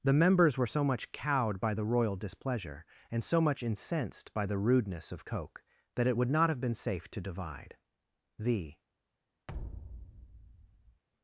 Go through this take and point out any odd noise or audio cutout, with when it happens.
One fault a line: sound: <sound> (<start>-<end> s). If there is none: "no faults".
sound: thud (9.5-11.0 s)